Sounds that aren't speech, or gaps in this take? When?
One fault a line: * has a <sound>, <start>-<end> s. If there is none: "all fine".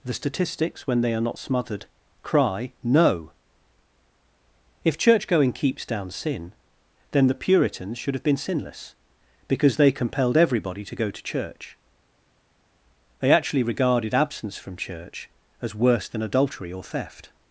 all fine